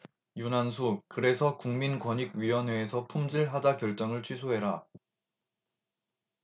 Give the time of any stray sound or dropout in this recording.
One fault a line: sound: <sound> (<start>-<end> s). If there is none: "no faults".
no faults